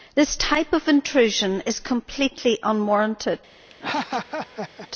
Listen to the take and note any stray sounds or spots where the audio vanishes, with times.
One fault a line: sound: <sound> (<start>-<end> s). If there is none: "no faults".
sound: laugh (3.7-4.9 s)